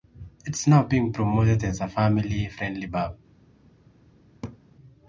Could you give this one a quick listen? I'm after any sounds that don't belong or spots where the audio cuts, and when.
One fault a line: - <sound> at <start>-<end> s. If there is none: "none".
- laugh at 4.4-4.6 s